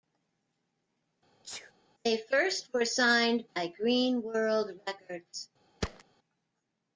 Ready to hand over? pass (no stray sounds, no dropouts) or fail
fail